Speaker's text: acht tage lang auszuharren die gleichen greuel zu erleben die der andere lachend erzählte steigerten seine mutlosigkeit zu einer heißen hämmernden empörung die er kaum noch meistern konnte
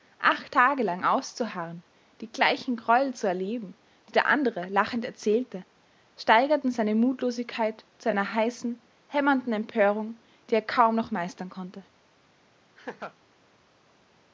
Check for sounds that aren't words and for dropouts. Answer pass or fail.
fail